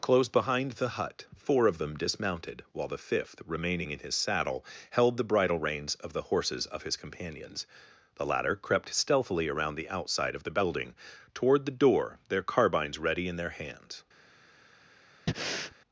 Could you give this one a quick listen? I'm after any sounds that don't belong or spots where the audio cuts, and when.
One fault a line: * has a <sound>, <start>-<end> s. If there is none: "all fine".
* has a breath, 15.3-15.8 s